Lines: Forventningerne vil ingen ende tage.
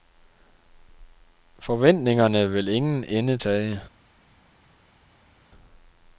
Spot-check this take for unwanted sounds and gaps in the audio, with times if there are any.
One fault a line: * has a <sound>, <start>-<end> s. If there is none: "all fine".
all fine